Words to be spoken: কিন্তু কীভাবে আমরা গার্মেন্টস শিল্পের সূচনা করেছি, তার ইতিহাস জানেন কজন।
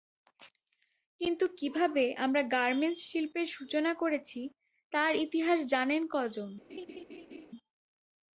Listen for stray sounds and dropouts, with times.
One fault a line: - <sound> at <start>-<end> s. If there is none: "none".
- laugh at 6.7-7.5 s